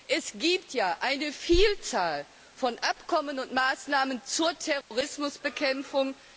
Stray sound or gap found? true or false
true